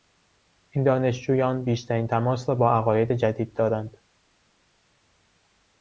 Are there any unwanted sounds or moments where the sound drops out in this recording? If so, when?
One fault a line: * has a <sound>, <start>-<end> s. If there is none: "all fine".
all fine